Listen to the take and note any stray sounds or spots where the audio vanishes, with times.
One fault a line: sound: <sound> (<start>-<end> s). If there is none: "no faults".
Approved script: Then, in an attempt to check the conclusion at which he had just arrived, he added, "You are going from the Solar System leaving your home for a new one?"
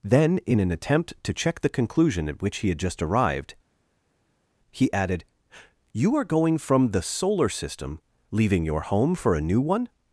no faults